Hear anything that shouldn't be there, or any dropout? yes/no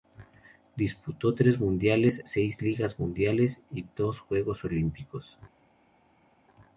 no